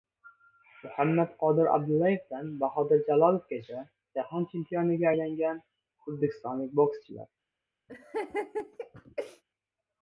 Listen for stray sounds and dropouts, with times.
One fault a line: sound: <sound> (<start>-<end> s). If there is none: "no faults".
sound: laugh (7.9-9.4 s)